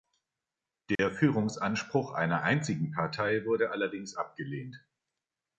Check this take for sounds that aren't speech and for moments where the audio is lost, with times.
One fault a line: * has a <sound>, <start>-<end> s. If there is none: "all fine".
* has a dropout, 1.0-1.0 s